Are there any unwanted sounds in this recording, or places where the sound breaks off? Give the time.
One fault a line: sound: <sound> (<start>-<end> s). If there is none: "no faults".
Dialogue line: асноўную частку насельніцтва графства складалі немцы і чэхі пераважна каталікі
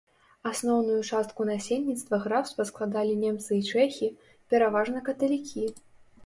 no faults